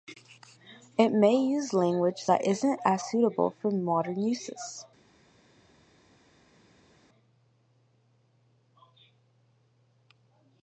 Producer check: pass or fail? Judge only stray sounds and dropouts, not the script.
pass